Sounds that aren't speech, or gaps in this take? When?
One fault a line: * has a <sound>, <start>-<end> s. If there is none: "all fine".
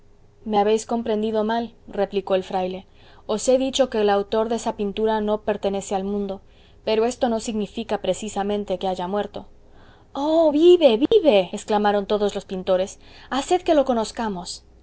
* has a dropout, 11.1-11.1 s